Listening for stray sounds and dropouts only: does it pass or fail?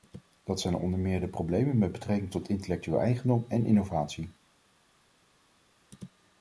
pass